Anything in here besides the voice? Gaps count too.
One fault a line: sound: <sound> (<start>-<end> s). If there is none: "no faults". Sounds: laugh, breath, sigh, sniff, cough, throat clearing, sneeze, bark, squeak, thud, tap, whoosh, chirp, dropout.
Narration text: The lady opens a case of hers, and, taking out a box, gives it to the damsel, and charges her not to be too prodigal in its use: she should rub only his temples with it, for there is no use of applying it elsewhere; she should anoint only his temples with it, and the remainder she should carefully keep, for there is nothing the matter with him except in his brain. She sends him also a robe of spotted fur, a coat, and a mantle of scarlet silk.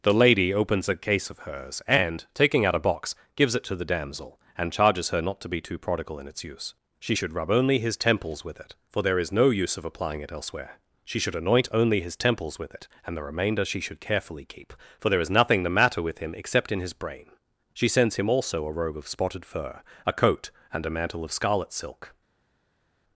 no faults